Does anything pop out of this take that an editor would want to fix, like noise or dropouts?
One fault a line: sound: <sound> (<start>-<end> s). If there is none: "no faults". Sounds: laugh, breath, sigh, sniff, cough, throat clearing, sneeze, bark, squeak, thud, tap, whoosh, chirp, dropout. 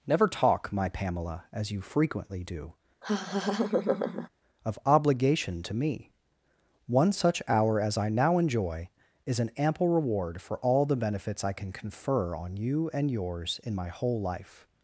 sound: laugh (3.0-4.3 s)